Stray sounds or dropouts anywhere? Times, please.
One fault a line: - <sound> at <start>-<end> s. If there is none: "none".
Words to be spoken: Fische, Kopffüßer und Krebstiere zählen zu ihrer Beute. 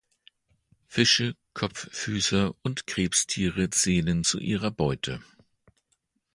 none